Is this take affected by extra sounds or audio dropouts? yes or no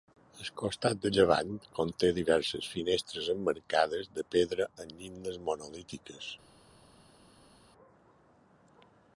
no